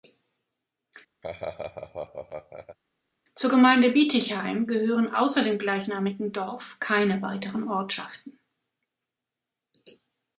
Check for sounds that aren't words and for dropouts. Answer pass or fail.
fail